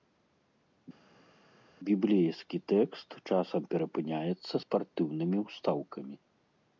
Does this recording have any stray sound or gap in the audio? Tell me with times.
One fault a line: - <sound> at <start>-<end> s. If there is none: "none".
none